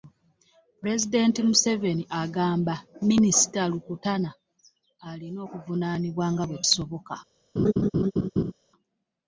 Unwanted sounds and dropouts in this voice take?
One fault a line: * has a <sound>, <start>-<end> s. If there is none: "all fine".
* has a laugh, 7.6-8.5 s